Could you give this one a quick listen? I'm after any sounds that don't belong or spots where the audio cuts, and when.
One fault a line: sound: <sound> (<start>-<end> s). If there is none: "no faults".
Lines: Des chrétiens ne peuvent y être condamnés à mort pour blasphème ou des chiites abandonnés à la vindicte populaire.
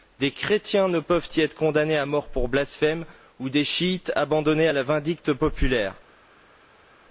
no faults